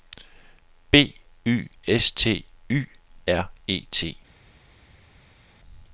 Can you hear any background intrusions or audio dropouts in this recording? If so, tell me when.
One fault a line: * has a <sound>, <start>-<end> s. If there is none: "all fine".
all fine